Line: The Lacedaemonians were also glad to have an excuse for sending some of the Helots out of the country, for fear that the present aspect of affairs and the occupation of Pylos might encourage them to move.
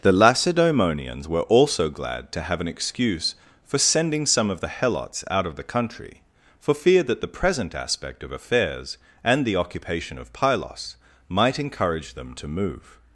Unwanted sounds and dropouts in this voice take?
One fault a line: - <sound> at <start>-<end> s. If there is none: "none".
none